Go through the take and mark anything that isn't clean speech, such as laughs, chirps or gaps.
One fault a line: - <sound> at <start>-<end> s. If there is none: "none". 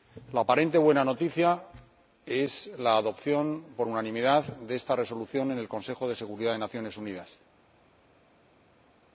none